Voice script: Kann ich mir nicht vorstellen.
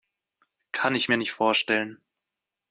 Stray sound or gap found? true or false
false